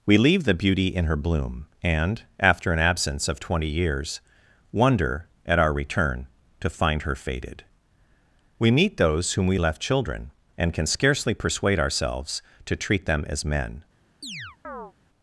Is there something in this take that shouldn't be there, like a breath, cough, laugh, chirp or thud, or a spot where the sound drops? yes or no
yes